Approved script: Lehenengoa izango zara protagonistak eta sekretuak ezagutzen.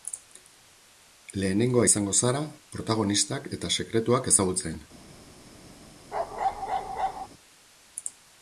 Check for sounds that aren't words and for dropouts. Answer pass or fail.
fail